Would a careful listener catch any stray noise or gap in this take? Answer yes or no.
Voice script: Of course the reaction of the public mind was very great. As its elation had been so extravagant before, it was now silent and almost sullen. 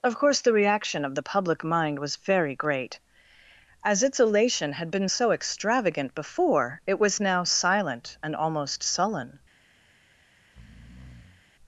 yes